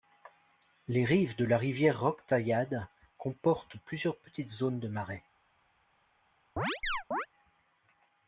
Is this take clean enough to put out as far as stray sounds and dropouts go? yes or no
no